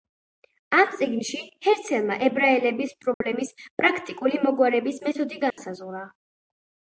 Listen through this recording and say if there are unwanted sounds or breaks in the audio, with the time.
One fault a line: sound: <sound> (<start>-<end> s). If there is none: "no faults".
sound: dropout (3.1-3.2 s)
sound: dropout (5.5-5.6 s)